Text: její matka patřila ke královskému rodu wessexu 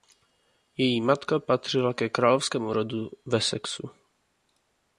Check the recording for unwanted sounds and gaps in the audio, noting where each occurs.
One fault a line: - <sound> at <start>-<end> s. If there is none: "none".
none